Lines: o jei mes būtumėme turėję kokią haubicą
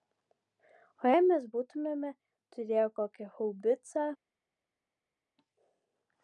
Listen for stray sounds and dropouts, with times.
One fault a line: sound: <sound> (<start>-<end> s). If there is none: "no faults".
no faults